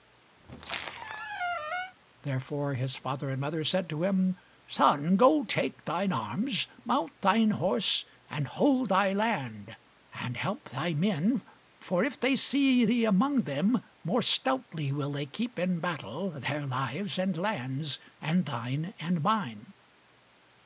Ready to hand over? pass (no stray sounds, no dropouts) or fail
fail